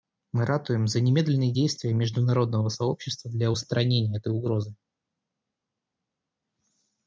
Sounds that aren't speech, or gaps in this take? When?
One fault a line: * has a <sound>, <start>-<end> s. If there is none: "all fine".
all fine